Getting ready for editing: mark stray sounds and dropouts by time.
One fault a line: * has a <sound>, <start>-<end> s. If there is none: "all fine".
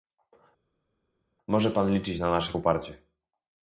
all fine